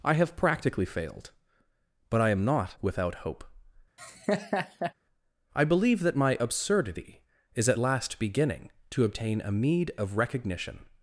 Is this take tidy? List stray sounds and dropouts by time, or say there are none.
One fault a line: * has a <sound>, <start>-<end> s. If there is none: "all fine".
* has a laugh, 4.0-4.9 s